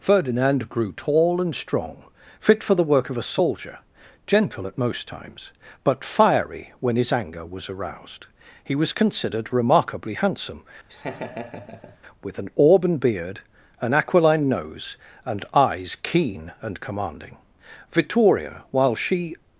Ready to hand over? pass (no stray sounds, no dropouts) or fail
fail